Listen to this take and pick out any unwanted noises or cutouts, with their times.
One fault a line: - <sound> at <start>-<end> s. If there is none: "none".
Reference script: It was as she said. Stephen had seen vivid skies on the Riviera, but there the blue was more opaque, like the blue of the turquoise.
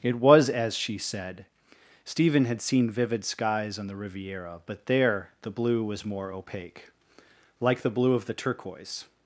none